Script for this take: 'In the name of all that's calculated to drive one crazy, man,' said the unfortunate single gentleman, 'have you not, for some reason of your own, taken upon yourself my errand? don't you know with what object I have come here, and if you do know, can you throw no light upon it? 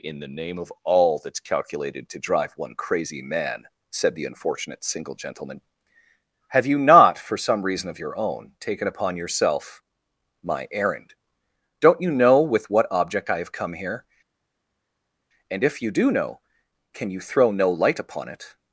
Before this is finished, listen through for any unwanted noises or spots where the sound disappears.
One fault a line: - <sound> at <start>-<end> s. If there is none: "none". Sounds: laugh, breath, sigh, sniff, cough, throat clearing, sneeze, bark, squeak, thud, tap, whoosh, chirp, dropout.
none